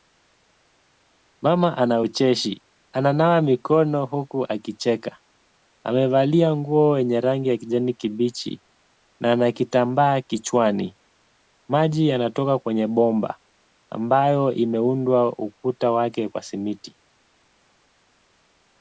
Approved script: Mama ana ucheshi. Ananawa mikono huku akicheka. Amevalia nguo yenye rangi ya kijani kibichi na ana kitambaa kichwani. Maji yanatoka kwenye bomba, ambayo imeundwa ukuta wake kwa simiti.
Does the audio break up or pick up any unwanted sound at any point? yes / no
no